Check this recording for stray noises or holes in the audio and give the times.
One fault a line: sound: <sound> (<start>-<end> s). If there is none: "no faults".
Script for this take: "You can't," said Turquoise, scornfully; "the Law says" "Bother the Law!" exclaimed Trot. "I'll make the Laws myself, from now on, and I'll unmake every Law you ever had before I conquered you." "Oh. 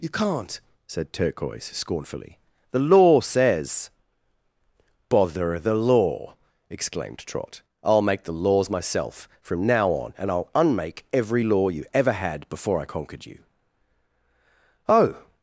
no faults